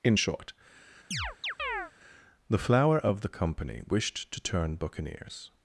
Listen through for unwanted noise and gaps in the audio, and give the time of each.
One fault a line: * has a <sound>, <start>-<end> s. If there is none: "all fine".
* has a chirp, 1.1-1.9 s